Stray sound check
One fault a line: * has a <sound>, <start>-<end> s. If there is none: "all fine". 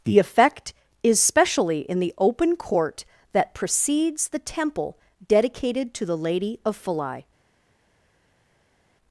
all fine